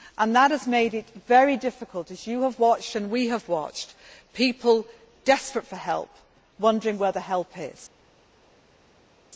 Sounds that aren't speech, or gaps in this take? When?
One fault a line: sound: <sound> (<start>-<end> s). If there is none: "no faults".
no faults